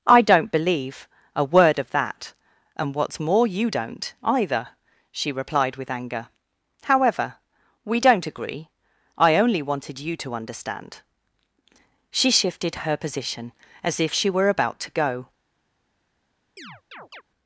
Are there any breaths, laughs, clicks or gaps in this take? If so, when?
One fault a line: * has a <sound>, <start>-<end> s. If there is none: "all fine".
* has a chirp, 16.6-17.2 s